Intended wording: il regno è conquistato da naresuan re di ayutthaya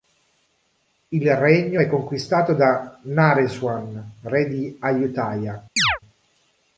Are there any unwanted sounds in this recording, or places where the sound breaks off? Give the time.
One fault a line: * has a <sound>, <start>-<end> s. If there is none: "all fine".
* has a chirp, 5.8-6.0 s